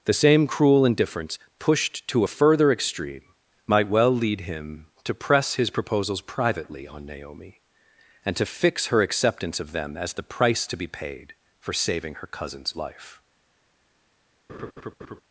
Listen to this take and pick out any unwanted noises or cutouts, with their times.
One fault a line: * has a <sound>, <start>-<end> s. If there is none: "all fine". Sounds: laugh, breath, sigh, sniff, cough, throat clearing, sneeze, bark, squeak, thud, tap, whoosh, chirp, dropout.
* has a laugh, 14.5-15.2 s